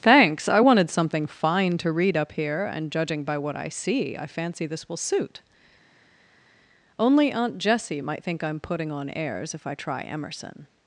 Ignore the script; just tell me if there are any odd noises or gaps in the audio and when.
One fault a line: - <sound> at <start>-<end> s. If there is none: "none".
none